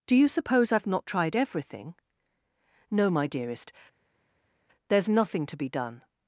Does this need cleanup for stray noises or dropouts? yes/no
no